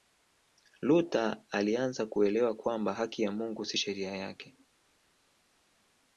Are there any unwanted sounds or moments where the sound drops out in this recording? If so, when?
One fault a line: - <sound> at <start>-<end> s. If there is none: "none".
none